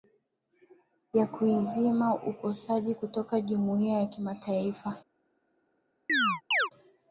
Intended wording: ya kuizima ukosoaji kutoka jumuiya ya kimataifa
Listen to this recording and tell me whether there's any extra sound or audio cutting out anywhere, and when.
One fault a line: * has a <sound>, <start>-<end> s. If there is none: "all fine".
* has a chirp, 6.1-6.7 s